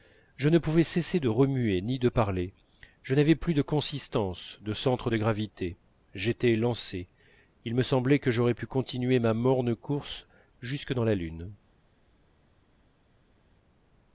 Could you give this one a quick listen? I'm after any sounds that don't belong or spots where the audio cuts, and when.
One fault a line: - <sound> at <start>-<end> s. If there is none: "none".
none